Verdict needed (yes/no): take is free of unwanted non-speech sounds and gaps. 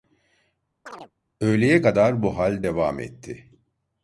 no